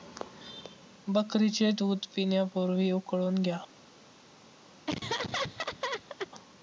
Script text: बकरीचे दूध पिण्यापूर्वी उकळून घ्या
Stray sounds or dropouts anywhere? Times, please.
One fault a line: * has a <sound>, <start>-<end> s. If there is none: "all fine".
* has a laugh, 4.9-6.3 s